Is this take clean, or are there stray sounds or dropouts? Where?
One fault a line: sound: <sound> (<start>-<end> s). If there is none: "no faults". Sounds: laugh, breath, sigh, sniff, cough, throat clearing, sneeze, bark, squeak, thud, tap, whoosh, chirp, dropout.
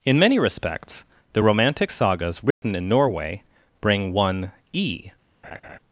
sound: dropout (2.5-2.6 s)
sound: laugh (5.4-5.8 s)